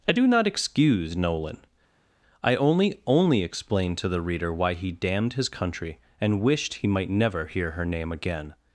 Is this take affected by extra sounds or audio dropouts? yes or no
no